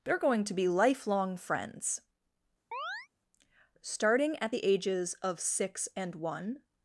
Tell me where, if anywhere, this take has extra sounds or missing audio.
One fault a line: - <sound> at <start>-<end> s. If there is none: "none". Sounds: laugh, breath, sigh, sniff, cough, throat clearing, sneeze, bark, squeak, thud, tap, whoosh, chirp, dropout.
- chirp at 2.7-3.1 s